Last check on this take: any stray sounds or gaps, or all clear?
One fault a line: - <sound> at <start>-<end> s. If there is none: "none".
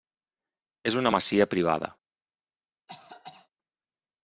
- cough at 2.9-3.5 s